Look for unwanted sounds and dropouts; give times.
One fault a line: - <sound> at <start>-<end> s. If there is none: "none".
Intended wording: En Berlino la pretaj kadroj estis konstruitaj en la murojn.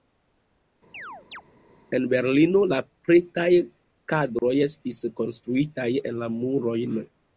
- chirp at 0.9-1.4 s
- dropout at 4.4-4.4 s